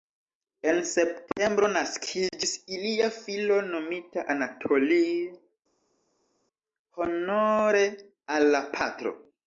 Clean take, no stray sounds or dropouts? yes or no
yes